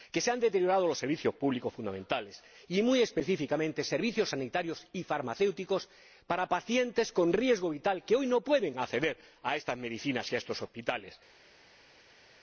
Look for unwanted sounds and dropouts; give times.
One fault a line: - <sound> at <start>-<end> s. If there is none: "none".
none